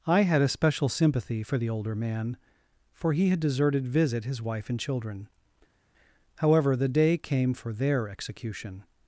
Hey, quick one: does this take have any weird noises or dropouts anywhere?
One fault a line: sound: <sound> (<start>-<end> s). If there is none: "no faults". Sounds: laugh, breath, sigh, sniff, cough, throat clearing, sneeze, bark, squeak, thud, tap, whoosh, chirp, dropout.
no faults